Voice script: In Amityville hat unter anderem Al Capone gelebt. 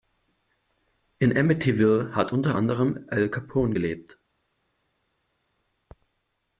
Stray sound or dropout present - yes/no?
no